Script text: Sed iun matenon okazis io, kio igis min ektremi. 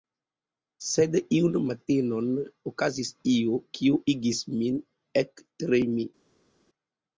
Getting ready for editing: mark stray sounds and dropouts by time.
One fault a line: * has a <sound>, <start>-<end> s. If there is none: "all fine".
all fine